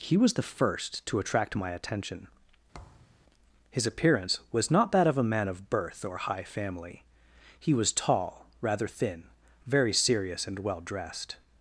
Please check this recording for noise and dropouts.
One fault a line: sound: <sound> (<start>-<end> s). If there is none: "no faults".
sound: thud (2.7-3.2 s)